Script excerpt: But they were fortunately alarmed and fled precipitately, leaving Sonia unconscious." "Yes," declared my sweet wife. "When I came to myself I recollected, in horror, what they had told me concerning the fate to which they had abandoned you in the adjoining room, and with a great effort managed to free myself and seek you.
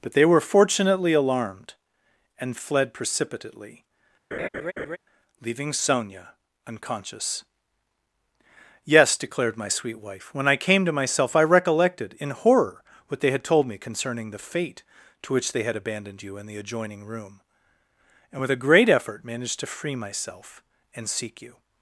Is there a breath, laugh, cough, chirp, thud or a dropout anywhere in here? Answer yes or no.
yes